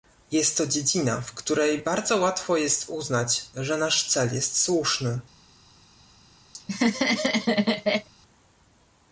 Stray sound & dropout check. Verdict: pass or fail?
fail